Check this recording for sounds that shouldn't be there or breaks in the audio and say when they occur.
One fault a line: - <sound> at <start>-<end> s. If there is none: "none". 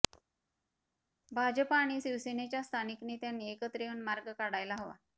none